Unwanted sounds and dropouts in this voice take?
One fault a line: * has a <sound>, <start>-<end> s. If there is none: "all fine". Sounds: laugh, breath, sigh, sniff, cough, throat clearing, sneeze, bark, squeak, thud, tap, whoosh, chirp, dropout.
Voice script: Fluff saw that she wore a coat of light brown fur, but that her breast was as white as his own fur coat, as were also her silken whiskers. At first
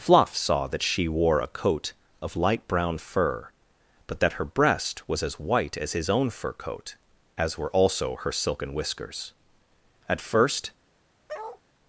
* has a bark, 11.3-11.6 s